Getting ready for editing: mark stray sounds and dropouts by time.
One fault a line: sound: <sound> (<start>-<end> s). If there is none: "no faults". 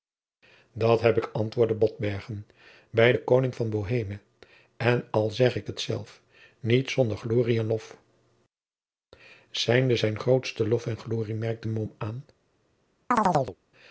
sound: chirp (13.1-13.6 s)